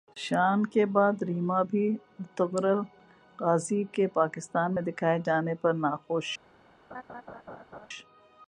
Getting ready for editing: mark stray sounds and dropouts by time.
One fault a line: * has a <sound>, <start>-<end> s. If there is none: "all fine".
* has a laugh, 6.9-7.9 s